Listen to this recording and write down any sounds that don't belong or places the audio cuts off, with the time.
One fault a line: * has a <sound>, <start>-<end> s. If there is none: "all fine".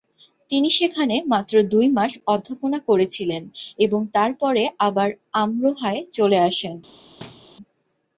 * has a thud, 7.2-7.5 s